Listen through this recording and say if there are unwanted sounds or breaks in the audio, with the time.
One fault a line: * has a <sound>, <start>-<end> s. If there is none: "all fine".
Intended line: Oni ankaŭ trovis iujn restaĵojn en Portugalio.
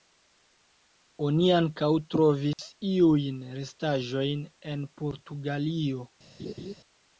* has a dropout, 2.5-2.6 s
* has a laugh, 6.4-6.7 s